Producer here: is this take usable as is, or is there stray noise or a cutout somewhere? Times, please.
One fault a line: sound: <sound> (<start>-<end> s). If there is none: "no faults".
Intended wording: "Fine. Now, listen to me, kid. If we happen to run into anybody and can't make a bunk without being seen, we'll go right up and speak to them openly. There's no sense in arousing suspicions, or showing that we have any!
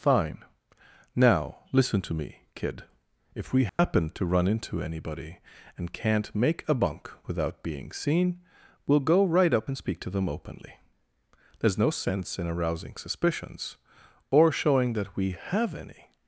sound: dropout (3.7-3.8 s)